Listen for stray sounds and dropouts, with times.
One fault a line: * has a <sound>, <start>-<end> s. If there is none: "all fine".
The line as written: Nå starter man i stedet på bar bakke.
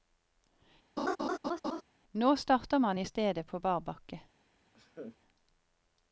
* has a laugh, 1.0-1.8 s
* has a laugh, 4.7-5.2 s